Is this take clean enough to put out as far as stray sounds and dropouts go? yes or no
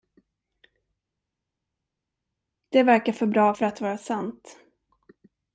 yes